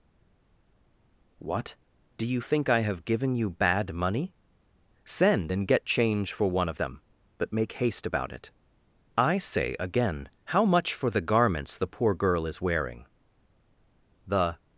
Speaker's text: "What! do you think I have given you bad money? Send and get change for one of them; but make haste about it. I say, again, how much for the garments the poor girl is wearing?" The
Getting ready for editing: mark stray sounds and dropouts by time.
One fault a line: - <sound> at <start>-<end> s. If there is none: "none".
none